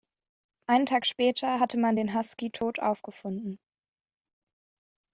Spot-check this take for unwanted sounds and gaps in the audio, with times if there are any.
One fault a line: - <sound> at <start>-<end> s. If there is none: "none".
none